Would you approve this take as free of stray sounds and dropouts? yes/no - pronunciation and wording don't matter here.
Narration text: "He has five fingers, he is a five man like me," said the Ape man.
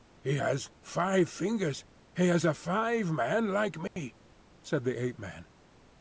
no